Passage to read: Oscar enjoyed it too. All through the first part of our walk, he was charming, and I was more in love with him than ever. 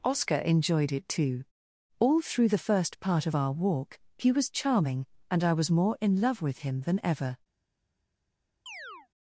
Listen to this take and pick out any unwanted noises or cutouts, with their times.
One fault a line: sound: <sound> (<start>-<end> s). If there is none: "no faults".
sound: chirp (8.7-9.1 s)